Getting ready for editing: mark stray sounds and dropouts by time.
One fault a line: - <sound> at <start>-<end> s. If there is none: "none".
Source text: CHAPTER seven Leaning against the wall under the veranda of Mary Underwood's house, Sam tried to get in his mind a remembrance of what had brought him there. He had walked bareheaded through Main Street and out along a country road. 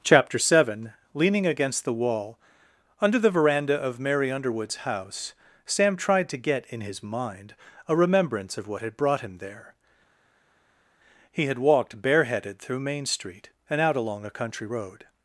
none